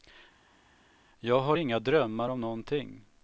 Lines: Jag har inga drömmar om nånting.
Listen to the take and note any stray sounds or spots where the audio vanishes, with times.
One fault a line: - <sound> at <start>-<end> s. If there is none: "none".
none